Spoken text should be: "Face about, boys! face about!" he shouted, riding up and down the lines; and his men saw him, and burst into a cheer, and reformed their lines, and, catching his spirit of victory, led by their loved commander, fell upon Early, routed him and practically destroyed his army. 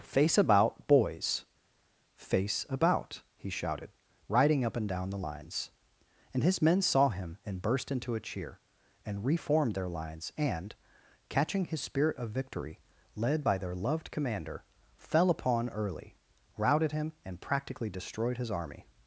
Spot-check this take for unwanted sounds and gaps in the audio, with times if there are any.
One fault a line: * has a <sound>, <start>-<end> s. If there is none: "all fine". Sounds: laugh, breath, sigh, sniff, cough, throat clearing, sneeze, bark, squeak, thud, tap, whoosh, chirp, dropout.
all fine